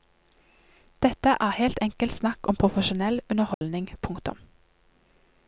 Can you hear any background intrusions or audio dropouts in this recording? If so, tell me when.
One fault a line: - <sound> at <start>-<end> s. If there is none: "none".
- dropout at 3.5-3.6 s